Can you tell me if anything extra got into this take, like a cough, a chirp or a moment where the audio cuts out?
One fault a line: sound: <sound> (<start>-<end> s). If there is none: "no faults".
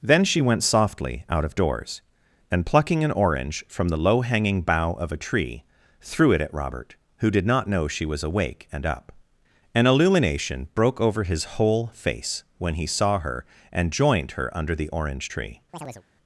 sound: chirp (15.7-16.0 s)